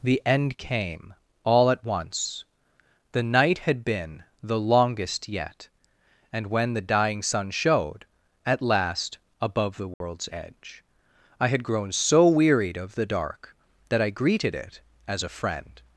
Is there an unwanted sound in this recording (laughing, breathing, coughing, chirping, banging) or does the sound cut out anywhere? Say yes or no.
yes